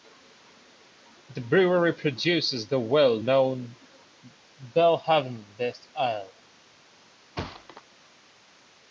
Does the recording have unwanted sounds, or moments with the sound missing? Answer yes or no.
yes